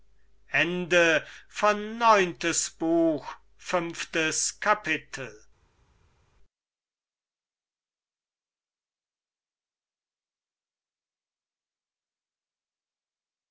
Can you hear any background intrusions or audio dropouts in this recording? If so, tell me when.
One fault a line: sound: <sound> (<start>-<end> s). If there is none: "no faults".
no faults